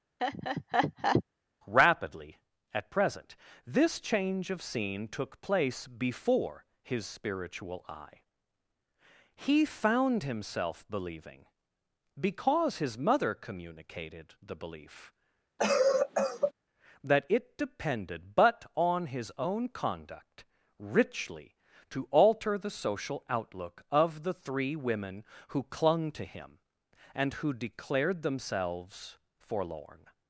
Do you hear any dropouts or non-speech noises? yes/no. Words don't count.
yes